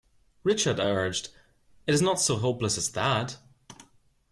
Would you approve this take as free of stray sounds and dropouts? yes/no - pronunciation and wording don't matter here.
yes